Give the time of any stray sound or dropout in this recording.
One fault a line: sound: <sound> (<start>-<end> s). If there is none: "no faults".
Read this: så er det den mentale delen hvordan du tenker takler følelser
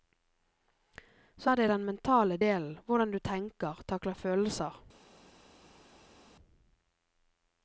no faults